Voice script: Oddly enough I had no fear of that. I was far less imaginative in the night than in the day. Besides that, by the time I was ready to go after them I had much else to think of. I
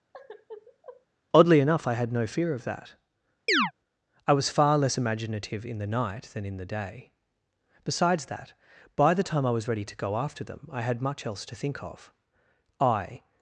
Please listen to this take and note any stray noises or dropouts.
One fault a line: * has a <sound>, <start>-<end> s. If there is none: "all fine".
* has a sigh, 0.1-1.1 s
* has a chirp, 3.5-3.7 s